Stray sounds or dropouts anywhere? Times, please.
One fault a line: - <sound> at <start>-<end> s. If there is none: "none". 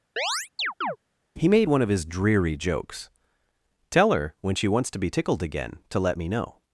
- chirp at 0.2-1.0 s